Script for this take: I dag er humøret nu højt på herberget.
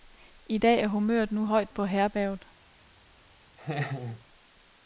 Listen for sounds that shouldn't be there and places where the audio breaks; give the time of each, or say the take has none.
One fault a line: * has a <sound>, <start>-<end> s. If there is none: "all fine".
* has a laugh, 3.6-4.3 s